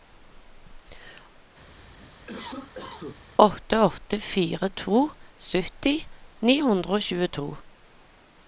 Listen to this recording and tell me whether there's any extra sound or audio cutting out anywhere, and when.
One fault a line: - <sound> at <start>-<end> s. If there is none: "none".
- cough at 1.8-3.2 s